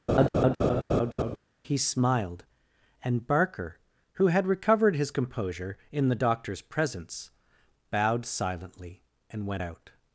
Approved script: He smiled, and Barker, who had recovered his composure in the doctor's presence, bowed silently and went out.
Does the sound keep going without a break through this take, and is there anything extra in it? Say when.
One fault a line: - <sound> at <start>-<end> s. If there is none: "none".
- laugh at 0.1-1.4 s